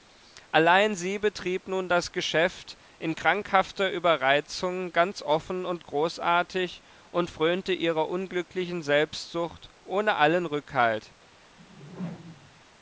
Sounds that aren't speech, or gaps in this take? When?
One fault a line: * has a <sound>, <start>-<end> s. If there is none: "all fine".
* has a whoosh, 11.6-12.6 s